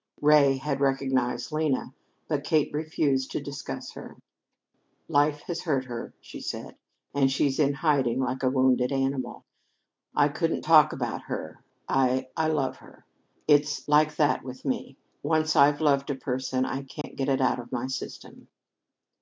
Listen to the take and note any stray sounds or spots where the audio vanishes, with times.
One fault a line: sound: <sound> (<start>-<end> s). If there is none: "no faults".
sound: dropout (17.0-17.0 s)